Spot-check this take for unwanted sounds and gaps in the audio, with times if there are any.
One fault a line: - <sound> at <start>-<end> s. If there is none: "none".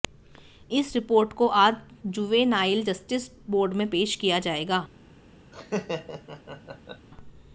- laugh at 5.5-7.1 s